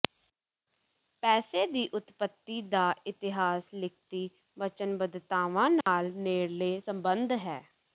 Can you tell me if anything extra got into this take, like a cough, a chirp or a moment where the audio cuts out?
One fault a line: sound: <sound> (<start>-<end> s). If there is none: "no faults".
sound: dropout (5.8-5.9 s)